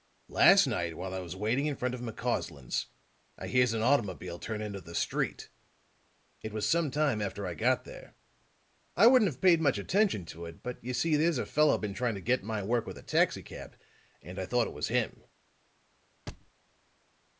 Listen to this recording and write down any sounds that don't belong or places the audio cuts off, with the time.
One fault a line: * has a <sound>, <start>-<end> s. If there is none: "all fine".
* has a thud, 16.3-16.5 s